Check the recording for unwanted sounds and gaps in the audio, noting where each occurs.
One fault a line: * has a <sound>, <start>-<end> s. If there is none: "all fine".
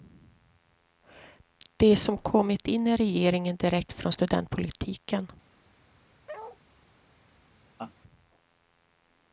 * has a bark, 6.3-6.6 s
* has a laugh, 7.8-7.9 s